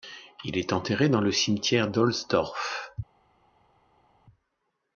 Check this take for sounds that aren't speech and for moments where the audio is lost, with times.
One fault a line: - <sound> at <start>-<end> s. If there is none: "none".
none